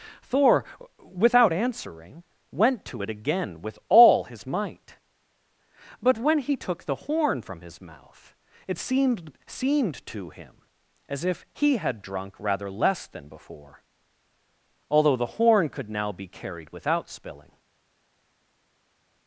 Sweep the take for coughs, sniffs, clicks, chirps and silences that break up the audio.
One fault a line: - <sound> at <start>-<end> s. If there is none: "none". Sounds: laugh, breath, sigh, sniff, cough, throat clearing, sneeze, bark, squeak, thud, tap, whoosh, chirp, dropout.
none